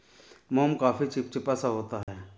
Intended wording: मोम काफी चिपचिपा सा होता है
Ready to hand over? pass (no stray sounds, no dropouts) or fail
fail